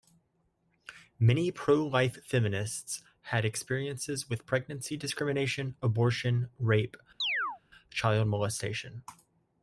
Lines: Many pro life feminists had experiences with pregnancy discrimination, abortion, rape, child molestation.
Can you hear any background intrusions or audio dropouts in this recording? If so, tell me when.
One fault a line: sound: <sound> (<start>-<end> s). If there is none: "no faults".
sound: chirp (7.2-7.6 s)